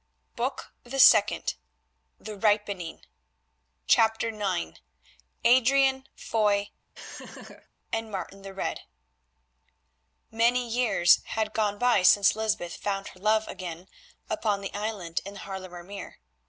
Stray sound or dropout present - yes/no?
yes